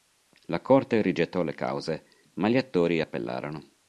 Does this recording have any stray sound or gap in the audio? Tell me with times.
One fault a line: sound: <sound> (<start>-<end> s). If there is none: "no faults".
no faults